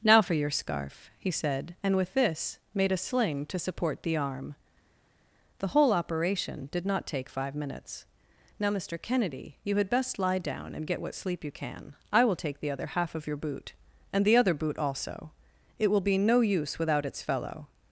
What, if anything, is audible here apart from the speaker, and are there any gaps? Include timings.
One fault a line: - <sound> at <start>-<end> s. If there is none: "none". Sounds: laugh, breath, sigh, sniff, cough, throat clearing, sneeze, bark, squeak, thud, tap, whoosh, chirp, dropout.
none